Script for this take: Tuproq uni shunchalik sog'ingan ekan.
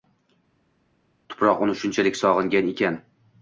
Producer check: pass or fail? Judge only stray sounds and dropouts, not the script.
pass